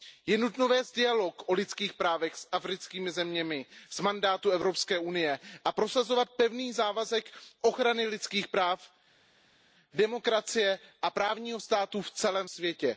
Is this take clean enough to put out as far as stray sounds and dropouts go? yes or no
yes